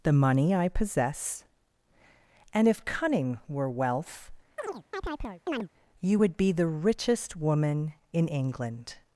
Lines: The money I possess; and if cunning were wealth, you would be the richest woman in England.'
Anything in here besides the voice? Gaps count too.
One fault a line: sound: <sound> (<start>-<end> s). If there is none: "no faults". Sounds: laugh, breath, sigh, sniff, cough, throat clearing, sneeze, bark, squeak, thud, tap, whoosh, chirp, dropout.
sound: chirp (4.6-5.7 s)